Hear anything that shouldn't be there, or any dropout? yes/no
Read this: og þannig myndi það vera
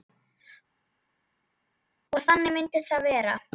no